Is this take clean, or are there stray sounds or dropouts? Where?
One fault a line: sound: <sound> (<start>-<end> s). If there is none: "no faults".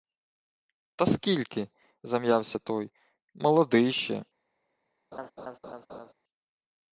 sound: laugh (5.1-6.1 s)